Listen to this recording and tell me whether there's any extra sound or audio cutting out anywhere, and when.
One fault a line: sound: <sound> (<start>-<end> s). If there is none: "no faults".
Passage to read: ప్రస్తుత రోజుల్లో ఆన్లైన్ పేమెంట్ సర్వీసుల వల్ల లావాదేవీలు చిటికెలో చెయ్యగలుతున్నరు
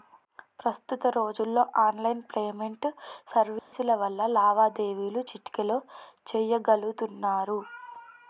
sound: dropout (3.6-3.7 s)